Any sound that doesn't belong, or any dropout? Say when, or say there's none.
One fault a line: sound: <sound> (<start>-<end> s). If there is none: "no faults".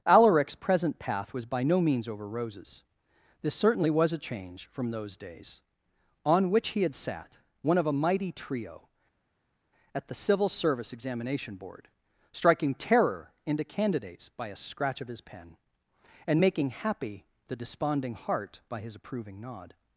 no faults